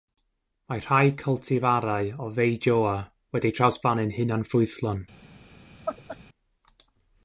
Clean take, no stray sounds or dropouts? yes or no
no